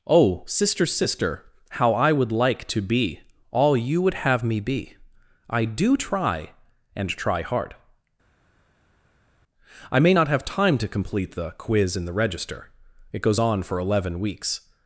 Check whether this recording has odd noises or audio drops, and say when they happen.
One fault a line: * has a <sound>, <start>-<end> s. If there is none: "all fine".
all fine